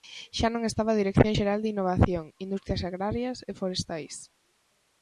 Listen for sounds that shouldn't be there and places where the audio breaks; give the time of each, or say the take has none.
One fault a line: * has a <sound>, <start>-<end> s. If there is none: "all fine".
all fine